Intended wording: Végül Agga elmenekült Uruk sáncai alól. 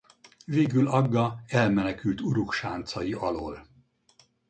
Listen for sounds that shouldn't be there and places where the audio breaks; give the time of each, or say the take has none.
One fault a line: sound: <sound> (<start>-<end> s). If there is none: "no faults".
no faults